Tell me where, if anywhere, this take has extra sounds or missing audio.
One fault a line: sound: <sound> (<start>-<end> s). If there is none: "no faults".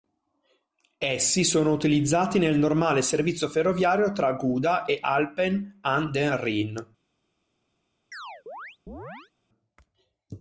sound: chirp (8.1-9.3 s)